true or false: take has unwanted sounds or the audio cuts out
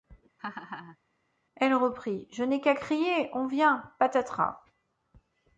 true